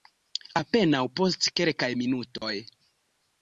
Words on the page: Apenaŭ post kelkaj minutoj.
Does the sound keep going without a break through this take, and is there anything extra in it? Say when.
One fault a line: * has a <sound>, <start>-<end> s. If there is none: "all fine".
* has a dropout, 2.4-2.4 s